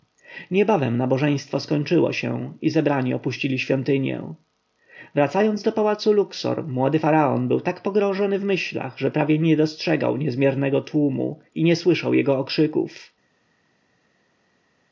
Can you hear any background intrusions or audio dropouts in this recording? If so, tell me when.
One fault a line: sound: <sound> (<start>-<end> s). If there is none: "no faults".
no faults